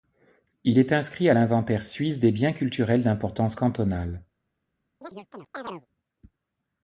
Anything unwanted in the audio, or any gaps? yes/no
yes